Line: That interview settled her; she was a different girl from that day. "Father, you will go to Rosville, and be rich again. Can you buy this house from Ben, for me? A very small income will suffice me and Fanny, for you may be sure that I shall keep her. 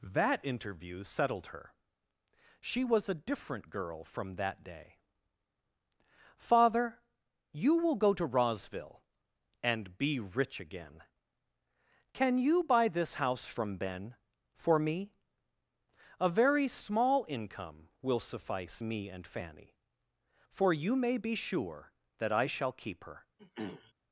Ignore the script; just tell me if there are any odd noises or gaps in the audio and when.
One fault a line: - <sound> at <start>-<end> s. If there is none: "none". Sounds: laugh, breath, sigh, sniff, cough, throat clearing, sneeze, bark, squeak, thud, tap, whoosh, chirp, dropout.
- throat clearing at 23.4-23.9 s